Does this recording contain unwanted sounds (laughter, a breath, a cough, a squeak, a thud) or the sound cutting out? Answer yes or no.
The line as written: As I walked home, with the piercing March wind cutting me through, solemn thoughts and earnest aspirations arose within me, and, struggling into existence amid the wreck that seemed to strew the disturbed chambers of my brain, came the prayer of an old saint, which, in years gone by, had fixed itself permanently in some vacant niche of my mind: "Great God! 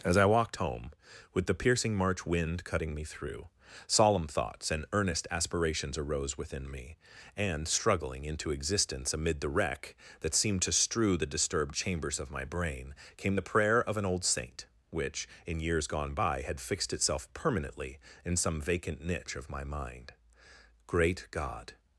no